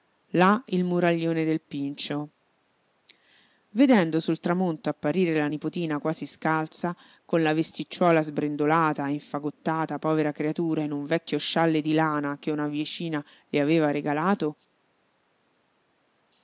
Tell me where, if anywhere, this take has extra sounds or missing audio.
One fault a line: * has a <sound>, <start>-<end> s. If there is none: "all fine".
all fine